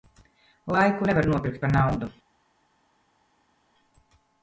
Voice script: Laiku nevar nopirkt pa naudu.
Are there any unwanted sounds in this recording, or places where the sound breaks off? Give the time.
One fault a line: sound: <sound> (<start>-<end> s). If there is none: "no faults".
no faults